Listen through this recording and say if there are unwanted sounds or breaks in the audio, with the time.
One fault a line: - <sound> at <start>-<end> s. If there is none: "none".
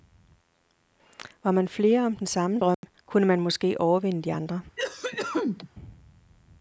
- dropout at 2.7-2.8 s
- cough at 4.8-5.7 s